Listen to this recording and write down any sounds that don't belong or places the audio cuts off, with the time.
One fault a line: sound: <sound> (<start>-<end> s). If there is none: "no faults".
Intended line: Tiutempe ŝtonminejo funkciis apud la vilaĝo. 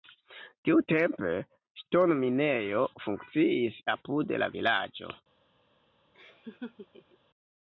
sound: laugh (6.1-7.2 s)